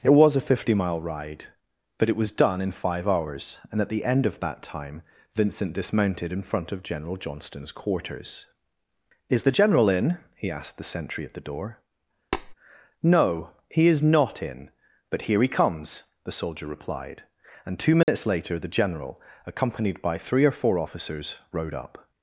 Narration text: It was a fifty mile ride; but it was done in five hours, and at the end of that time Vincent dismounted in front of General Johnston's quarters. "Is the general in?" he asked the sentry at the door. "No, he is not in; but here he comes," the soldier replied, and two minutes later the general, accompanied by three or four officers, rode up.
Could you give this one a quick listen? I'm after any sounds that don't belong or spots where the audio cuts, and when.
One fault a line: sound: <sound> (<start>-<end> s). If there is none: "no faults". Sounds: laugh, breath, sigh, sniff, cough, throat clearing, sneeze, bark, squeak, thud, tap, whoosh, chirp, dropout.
sound: tap (12.3-12.5 s)
sound: dropout (18.0-18.1 s)